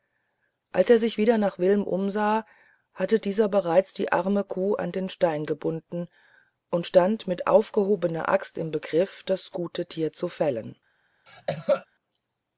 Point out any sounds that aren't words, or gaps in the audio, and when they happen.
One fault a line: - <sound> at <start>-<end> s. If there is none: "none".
- cough at 11.3-11.9 s